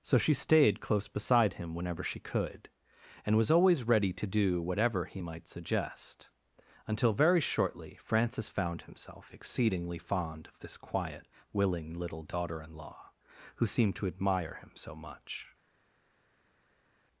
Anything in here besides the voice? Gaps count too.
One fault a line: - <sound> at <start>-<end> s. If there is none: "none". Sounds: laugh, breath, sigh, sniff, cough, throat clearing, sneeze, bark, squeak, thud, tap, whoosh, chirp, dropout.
none